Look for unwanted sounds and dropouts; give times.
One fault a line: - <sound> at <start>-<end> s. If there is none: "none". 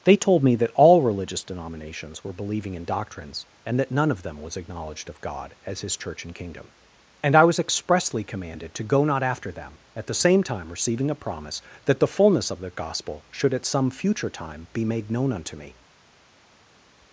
none